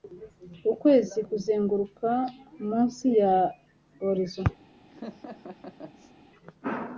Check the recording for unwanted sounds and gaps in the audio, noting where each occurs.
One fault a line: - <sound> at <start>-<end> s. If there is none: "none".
- laugh at 4.9-6.1 s